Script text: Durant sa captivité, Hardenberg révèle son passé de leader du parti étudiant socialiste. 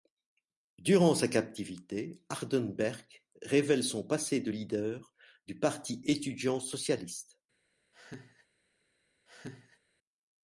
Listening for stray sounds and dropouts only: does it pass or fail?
fail